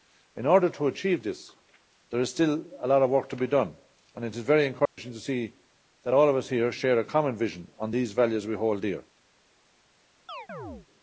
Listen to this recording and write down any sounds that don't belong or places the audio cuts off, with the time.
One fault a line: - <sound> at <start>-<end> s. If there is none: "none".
- dropout at 4.9-5.0 s
- chirp at 10.3-10.9 s